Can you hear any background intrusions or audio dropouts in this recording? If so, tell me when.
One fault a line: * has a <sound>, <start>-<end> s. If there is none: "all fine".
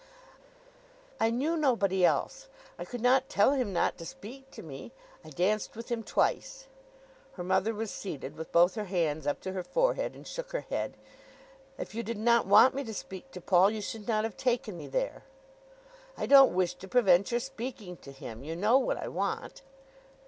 all fine